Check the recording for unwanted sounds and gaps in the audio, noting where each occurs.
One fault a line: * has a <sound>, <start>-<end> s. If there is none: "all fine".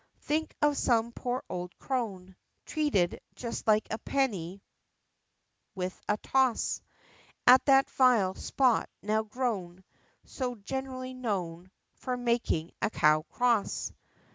all fine